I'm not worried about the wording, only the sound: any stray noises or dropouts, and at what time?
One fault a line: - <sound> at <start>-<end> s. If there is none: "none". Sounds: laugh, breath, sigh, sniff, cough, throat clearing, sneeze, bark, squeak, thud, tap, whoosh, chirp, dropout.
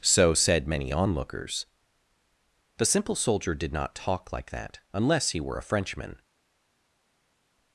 none